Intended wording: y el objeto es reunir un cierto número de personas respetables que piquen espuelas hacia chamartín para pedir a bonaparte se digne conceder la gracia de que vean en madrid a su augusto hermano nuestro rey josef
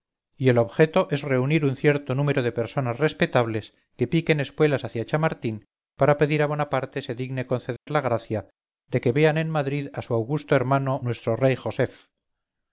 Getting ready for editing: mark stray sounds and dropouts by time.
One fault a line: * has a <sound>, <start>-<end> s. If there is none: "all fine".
* has a dropout, 7.8-7.9 s